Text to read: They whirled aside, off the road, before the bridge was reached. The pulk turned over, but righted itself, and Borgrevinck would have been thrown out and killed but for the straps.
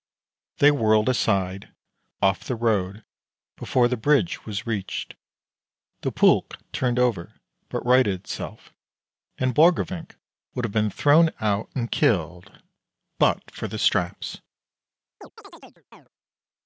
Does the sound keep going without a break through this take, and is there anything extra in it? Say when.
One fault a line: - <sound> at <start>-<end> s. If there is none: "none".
- chirp at 15.2-16.1 s